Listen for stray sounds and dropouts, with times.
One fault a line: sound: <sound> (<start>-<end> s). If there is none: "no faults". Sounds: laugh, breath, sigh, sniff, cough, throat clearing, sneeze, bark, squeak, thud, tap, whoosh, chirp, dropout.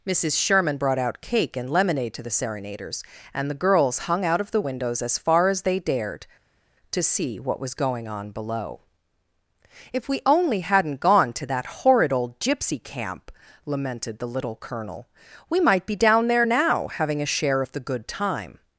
no faults